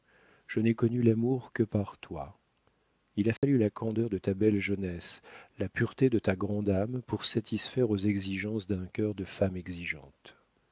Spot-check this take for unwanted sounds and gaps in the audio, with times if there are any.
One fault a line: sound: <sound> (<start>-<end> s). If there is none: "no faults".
sound: dropout (3.4-3.4 s)